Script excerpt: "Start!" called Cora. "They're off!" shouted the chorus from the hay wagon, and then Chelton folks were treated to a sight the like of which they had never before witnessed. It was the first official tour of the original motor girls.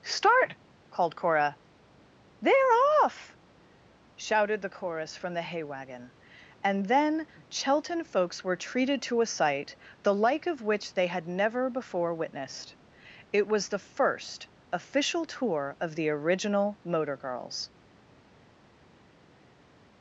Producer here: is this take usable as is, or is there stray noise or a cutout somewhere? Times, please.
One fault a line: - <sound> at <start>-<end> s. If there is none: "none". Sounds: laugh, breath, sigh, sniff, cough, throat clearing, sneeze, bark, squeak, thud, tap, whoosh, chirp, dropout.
none